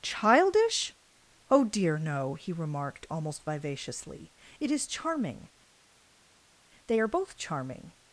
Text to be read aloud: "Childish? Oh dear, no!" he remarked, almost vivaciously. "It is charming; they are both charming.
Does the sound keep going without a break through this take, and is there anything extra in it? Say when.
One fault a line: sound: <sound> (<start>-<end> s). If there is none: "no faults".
no faults